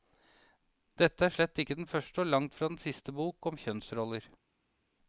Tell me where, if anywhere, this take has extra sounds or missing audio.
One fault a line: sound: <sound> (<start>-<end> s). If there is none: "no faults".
no faults